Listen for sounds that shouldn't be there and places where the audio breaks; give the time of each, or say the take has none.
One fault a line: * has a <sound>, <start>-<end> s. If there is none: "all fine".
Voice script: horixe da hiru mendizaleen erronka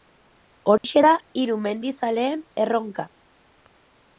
* has a dropout, 0.8-0.8 s